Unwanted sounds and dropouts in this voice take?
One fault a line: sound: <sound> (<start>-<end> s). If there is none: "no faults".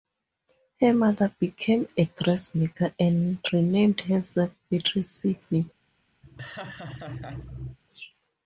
sound: laugh (6.2-7.8 s)